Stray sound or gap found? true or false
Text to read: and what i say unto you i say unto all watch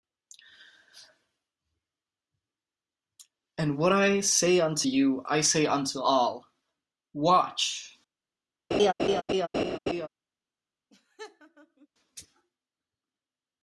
true